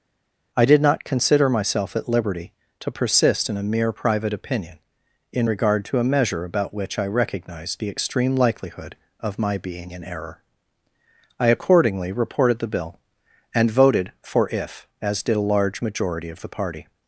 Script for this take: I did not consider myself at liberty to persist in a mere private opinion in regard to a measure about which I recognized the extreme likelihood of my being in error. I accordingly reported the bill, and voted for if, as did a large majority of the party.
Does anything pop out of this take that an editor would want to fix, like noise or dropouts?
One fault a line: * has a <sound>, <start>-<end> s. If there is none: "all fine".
all fine